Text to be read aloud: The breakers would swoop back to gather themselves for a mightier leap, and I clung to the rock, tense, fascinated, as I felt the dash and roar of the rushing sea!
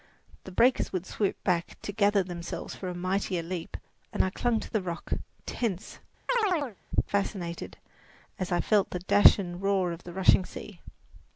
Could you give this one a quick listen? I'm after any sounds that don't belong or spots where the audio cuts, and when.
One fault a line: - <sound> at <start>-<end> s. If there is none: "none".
- chirp at 6.3-6.8 s